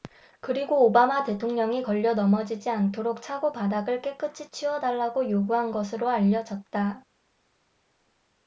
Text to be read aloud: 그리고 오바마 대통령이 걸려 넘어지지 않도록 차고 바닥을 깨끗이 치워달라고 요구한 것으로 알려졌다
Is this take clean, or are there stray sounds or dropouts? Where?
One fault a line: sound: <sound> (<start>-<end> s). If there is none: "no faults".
no faults